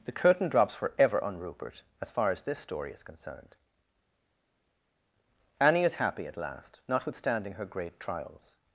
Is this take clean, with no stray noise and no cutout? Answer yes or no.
yes